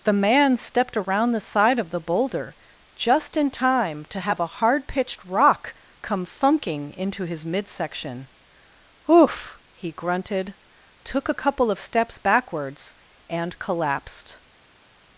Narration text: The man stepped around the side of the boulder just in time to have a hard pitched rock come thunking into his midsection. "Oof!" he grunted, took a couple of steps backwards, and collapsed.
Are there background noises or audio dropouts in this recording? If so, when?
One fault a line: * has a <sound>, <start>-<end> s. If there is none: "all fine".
all fine